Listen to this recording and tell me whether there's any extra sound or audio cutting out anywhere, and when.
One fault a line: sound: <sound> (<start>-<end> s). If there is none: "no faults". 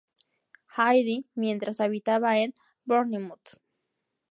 no faults